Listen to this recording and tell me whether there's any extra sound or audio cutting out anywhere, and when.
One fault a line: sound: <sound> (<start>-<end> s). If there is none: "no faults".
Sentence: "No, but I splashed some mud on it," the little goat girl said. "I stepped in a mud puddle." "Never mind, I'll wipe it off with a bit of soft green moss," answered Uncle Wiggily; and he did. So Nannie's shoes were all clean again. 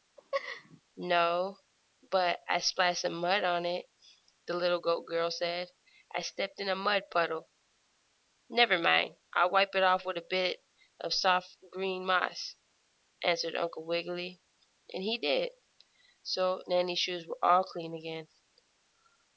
sound: laugh (0.2-0.8 s)